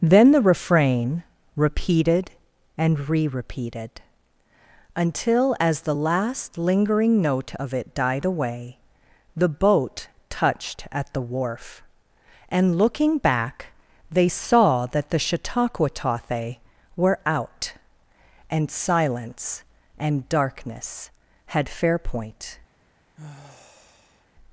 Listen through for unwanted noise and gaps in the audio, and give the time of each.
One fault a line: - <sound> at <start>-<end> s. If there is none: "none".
- sigh at 23.2-24.3 s